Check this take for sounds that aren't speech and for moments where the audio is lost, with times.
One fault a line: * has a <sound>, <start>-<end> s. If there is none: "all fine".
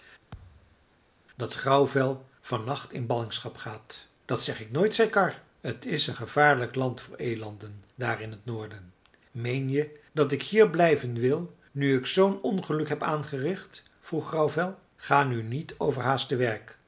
* has a thud, 0.3-0.9 s